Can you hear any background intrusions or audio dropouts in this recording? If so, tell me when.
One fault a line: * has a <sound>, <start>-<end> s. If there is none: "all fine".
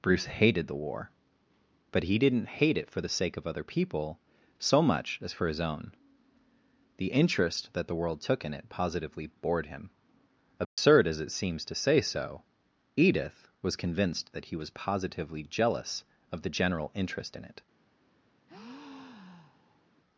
* has a dropout, 10.6-10.8 s
* has a breath, 18.5-19.9 s